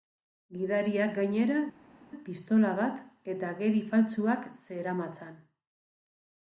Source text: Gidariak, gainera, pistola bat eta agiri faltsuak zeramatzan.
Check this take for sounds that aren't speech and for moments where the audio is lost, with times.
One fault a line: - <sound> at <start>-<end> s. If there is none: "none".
none